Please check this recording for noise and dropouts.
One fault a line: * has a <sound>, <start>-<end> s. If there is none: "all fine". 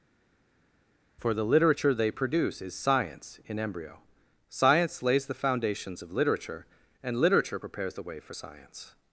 all fine